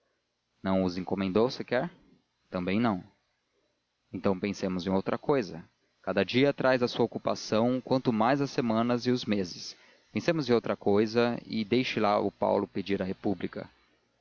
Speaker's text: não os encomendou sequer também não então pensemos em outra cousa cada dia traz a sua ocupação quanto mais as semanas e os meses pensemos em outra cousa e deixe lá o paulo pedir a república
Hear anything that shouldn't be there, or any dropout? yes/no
no